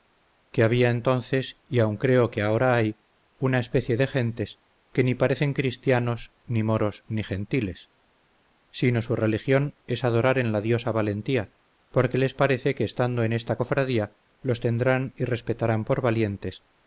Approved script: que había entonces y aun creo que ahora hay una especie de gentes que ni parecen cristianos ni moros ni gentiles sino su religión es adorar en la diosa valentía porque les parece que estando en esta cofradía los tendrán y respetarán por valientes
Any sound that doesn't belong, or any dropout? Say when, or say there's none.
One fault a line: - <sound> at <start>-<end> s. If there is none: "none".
none